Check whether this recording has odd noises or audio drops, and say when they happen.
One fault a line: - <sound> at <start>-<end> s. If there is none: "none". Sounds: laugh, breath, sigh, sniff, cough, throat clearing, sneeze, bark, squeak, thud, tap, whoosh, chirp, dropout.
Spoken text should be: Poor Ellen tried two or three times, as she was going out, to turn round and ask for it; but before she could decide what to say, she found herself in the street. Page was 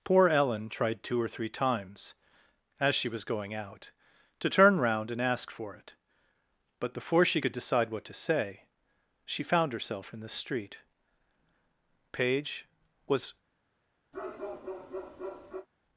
- bark at 14.1-15.7 s